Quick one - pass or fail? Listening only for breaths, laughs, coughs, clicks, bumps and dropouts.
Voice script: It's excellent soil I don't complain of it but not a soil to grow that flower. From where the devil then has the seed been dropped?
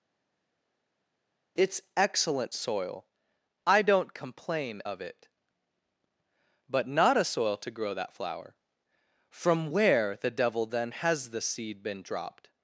pass